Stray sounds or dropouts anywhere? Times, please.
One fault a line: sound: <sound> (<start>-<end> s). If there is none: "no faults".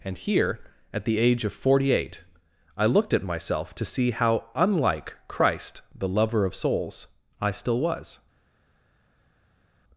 no faults